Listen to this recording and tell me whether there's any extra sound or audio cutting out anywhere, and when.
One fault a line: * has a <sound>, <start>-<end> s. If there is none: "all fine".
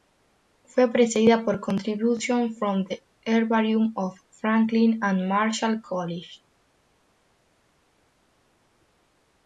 all fine